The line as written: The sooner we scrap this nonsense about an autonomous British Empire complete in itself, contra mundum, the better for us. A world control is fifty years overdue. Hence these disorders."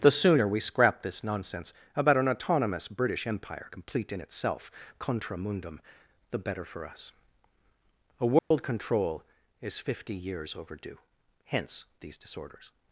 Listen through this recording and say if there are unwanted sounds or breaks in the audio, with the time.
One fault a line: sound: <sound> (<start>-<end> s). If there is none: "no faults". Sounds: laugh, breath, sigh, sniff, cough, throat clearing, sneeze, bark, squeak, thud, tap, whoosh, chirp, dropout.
sound: dropout (8.4-8.5 s)